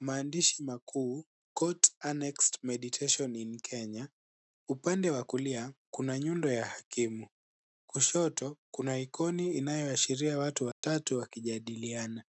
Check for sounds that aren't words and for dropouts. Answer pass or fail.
fail